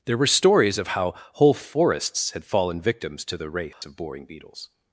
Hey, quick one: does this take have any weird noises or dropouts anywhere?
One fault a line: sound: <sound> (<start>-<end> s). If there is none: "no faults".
sound: dropout (3.7-3.8 s)